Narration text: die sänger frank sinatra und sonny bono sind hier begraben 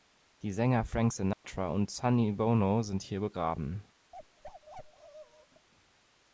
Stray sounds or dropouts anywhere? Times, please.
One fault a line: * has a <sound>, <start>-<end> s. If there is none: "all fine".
* has a dropout, 1.3-1.4 s
* has a bark, 4.1-5.7 s